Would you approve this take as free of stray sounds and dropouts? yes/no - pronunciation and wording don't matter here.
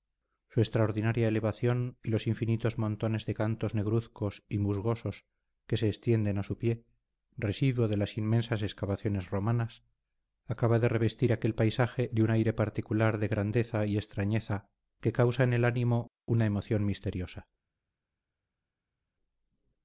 yes